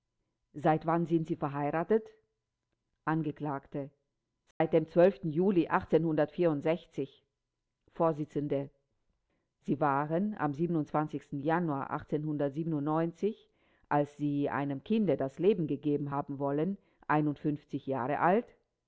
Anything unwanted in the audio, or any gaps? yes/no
yes